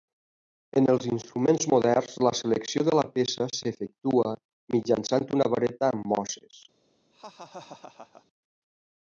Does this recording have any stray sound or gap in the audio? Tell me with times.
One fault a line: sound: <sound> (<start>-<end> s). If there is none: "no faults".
sound: laugh (7.1-8.3 s)